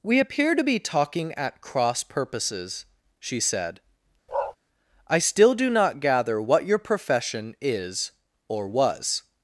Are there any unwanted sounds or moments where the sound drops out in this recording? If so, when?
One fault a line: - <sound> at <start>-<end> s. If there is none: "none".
- bark at 4.3-4.6 s